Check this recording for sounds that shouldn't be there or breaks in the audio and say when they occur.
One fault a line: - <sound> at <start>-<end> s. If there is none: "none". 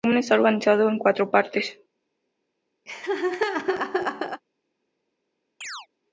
- laugh at 2.9-4.4 s
- chirp at 5.6-5.9 s